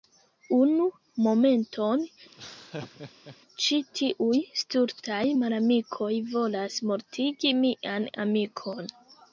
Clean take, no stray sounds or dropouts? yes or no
no